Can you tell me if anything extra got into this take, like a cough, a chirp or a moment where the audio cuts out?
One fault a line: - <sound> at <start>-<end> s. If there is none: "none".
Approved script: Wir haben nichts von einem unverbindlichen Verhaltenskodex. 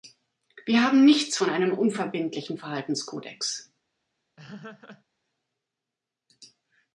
- laugh at 4.4-5.0 s